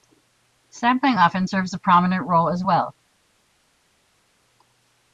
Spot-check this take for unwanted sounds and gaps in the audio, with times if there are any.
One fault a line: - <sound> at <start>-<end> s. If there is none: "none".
none